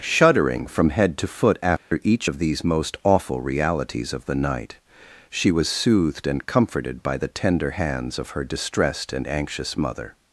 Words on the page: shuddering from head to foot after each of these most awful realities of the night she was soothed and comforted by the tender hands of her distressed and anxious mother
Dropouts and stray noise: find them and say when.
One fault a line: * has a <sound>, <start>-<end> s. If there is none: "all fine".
* has a dropout, 1.8-1.9 s